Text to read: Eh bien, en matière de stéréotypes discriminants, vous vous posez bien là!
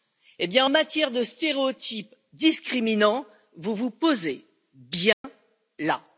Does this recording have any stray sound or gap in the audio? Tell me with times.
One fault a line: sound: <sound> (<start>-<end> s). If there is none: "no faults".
sound: dropout (5.1-5.2 s)